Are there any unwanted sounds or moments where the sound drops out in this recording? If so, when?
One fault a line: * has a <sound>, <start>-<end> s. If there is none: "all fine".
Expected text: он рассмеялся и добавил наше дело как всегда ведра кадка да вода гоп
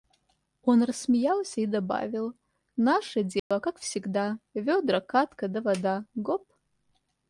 * has a dropout, 3.4-3.5 s